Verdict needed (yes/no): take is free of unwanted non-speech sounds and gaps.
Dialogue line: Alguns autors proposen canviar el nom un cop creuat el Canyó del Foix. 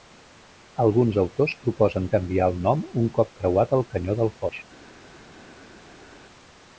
yes